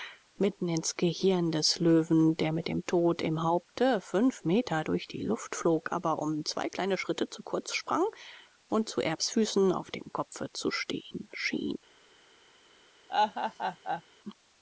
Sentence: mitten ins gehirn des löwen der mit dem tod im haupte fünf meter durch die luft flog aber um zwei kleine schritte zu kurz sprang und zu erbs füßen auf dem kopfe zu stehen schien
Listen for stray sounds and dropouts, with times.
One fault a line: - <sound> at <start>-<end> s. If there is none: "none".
- laugh at 13.1-14.0 s